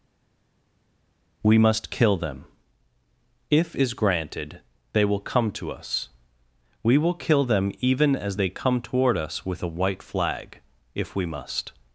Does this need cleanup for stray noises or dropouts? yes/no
no